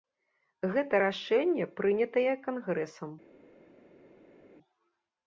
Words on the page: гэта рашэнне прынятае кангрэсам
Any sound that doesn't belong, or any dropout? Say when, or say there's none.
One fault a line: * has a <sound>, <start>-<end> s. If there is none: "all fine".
all fine